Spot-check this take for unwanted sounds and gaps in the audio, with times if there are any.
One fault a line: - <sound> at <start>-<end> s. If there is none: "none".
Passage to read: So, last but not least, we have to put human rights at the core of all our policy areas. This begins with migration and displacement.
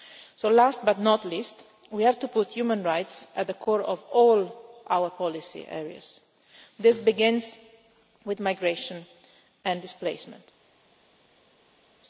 none